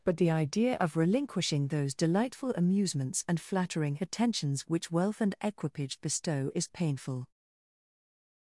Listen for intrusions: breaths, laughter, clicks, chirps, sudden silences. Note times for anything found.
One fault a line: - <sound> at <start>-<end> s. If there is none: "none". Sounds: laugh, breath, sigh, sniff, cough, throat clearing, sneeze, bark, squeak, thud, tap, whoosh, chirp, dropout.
none